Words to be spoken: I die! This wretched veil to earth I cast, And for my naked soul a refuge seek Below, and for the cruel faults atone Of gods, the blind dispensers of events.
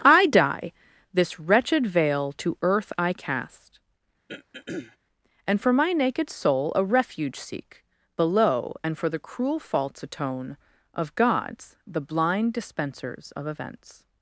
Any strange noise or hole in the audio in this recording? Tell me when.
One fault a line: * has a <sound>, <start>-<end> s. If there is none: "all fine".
* has a throat clearing, 4.3-5.0 s